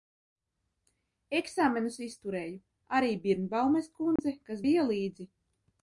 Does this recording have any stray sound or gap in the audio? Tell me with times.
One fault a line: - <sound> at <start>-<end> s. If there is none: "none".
- dropout at 4.2-4.2 s